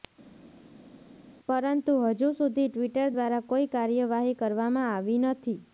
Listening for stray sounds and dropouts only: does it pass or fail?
pass